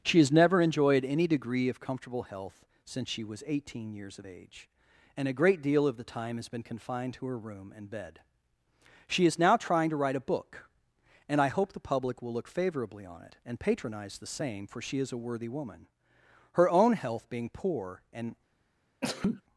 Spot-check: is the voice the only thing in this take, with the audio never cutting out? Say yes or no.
no